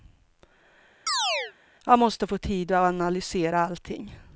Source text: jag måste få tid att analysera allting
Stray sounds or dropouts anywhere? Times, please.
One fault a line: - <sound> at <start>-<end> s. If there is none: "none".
- chirp at 1.1-1.5 s